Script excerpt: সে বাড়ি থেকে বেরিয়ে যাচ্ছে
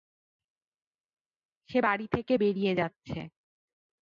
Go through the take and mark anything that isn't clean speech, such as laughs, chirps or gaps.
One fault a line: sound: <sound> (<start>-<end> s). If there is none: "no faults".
no faults